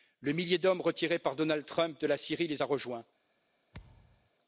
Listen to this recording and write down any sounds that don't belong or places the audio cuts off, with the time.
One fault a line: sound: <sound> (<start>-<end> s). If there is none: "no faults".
sound: thud (3.7-4.3 s)